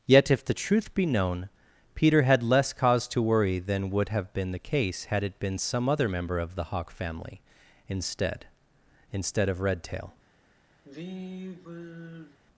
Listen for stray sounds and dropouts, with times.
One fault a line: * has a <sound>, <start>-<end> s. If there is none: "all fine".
* has a sigh, 10.8-12.4 s